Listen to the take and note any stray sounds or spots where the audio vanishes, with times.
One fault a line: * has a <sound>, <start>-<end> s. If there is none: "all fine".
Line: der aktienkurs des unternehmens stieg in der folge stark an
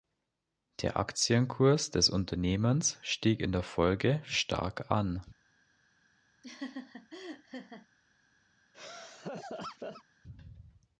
* has a laugh, 6.4-7.9 s
* has a laugh, 8.7-10.0 s